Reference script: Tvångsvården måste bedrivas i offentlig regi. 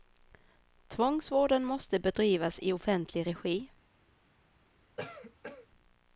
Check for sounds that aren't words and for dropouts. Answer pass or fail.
fail